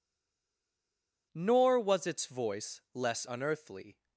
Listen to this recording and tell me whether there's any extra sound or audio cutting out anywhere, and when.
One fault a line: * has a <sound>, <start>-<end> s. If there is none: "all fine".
all fine